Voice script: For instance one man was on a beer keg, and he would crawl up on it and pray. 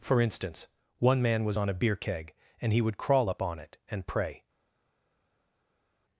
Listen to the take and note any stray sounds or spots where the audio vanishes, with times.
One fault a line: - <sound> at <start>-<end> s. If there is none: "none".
none